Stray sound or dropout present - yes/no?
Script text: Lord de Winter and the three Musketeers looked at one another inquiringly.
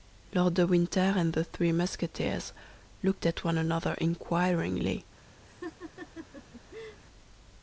yes